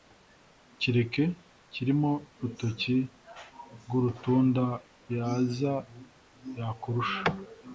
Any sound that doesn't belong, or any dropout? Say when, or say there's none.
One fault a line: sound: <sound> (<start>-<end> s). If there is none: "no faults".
no faults